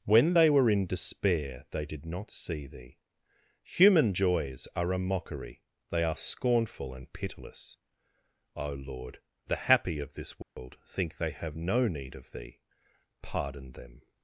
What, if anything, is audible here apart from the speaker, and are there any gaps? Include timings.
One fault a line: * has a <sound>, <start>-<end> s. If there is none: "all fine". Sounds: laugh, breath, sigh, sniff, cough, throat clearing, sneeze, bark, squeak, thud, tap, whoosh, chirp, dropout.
* has a dropout, 10.4-10.6 s